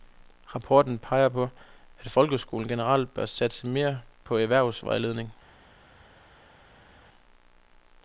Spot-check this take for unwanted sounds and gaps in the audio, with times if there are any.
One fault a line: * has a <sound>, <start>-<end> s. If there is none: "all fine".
all fine